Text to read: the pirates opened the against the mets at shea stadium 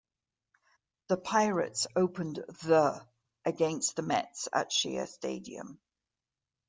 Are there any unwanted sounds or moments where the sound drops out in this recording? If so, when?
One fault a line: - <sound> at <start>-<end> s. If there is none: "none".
none